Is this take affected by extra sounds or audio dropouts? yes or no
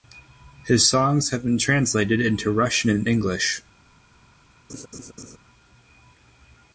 yes